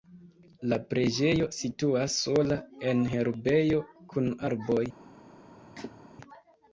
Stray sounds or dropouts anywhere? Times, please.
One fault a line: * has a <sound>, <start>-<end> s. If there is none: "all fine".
* has a cough, 5.6-6.1 s